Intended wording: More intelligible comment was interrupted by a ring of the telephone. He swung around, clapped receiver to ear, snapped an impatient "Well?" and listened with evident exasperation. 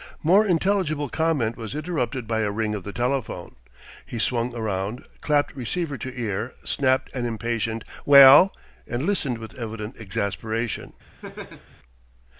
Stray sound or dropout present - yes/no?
yes